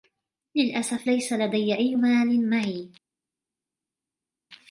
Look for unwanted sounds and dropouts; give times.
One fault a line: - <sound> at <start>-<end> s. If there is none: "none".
none